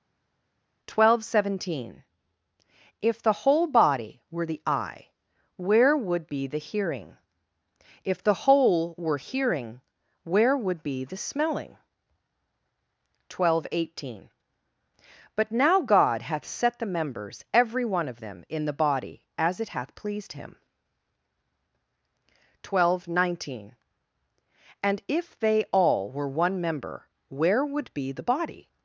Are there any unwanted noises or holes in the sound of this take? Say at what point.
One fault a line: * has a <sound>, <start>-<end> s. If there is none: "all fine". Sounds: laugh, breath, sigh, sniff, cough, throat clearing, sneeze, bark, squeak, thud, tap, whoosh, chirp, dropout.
all fine